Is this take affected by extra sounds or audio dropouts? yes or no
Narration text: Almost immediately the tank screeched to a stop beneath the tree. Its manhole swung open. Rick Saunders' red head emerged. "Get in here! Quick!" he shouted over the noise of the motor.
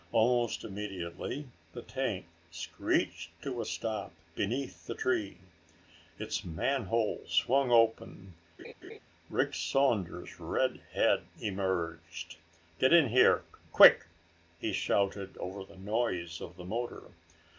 yes